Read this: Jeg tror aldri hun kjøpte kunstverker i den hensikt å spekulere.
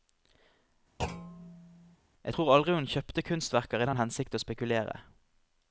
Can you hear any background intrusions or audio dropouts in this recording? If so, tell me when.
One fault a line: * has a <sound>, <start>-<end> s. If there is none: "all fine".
* has a thud, 1.0-2.0 s